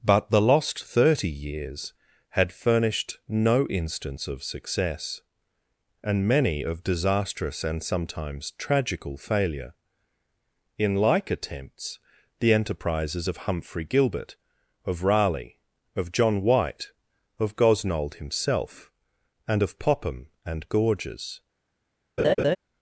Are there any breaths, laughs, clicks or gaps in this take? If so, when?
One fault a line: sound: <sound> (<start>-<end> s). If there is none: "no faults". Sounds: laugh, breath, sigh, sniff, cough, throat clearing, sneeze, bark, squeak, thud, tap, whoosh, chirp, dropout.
sound: laugh (22.2-22.6 s)